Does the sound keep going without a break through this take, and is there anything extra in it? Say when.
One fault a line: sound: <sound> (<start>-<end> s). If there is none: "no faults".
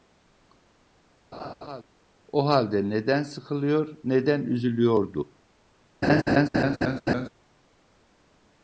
sound: laugh (1.3-1.8 s)
sound: laugh (6.0-7.3 s)